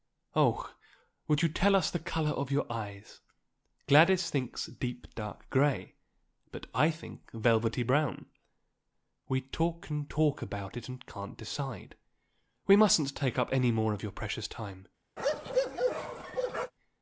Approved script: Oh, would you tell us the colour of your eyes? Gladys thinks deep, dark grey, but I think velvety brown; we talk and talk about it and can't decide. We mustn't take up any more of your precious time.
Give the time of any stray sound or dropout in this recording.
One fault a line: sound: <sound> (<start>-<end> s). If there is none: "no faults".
sound: bark (15.2-16.7 s)